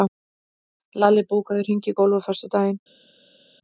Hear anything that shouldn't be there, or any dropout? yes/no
no